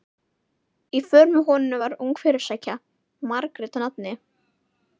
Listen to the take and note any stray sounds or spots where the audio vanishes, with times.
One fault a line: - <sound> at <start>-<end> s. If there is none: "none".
none